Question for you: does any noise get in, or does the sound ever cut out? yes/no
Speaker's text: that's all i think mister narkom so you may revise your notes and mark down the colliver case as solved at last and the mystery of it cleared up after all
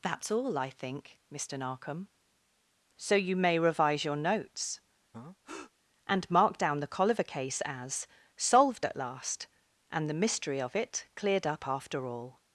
yes